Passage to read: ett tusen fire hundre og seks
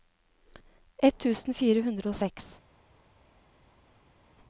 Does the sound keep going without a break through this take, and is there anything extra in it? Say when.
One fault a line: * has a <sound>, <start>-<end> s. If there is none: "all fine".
all fine